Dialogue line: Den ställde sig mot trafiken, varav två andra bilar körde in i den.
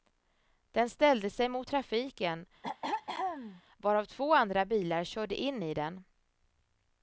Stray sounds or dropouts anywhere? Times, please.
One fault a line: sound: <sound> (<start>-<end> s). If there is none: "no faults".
sound: throat clearing (2.6-3.6 s)